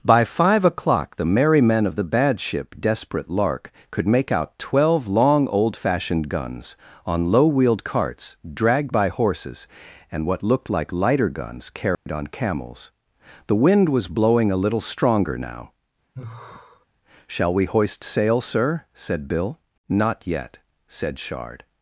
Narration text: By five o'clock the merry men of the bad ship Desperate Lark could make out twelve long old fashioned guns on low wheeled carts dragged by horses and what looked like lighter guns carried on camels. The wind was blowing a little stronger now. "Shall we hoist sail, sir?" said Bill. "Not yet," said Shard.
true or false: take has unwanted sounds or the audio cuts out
true